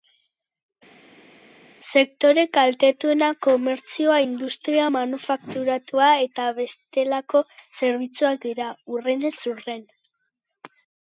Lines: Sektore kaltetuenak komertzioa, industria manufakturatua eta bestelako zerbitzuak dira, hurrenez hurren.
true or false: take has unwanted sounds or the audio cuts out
false